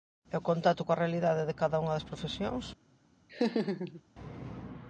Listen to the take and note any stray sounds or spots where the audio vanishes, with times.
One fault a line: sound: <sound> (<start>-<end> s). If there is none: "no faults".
sound: laugh (3.3-4.0 s)